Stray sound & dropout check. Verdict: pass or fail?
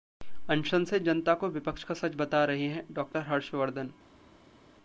pass